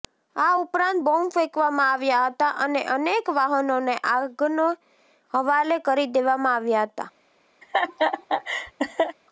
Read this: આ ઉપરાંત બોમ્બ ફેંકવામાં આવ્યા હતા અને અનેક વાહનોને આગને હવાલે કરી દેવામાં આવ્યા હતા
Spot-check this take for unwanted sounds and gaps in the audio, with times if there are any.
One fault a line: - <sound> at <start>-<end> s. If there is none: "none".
- laugh at 7.6-9.2 s